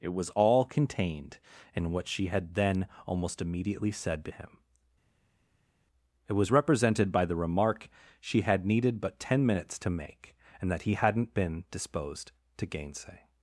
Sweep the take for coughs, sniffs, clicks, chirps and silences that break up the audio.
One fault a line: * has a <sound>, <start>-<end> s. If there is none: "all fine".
all fine